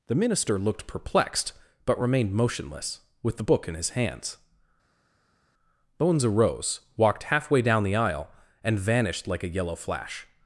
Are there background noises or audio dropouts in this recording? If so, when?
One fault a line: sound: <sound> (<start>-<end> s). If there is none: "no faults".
no faults